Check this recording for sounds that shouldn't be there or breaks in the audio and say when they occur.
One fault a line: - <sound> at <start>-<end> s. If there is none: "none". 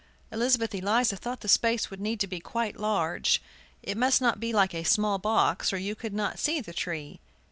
none